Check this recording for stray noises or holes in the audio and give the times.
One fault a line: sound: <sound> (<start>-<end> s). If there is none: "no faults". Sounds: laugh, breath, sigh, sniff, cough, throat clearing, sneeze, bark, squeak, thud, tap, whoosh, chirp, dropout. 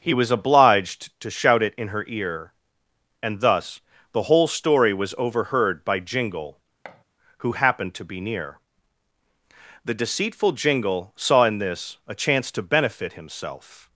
sound: thud (6.8-7.0 s)